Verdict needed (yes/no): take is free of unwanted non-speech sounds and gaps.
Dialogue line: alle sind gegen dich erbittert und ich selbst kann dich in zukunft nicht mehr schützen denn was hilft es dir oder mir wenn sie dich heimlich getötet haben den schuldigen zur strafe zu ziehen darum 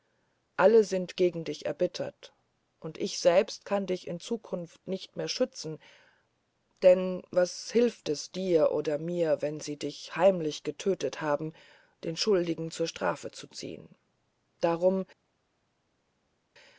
yes